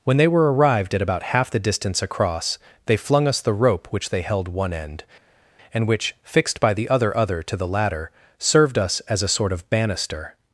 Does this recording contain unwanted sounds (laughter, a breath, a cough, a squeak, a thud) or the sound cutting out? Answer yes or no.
no